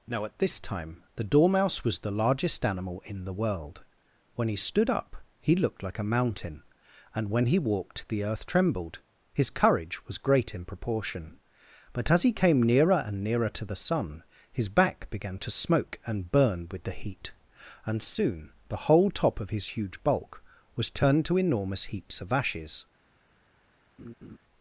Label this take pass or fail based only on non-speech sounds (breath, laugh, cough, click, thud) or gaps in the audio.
fail